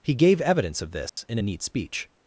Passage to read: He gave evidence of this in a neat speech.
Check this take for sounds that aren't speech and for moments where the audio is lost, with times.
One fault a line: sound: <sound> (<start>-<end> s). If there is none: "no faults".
sound: dropout (1.1-1.2 s)